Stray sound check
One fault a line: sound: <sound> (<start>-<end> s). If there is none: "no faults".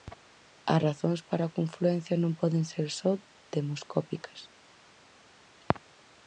no faults